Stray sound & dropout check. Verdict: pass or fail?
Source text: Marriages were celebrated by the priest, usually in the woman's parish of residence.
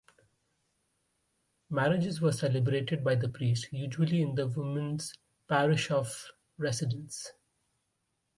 pass